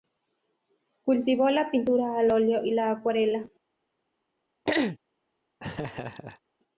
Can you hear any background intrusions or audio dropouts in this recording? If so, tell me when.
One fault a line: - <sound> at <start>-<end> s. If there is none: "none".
- throat clearing at 4.7-5.0 s
- laugh at 5.6-6.4 s